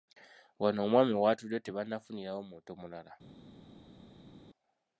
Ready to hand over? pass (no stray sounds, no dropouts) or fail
pass